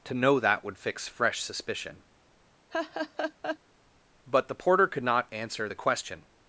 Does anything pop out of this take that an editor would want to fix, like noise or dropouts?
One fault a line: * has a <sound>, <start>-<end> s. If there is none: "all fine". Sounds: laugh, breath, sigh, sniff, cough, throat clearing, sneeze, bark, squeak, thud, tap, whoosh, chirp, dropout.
* has a laugh, 2.7-3.6 s